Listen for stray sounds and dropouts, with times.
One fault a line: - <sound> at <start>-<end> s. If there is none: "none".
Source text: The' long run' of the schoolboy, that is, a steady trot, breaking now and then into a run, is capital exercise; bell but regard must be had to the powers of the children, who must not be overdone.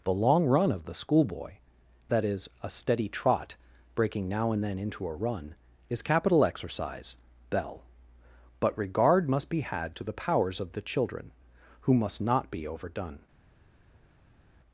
none